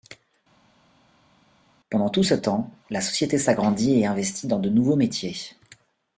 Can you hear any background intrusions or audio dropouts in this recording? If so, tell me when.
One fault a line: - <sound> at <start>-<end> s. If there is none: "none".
none